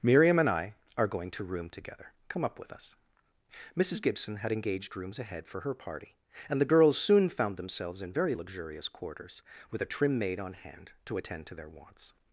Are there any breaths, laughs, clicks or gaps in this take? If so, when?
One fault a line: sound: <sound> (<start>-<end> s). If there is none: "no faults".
no faults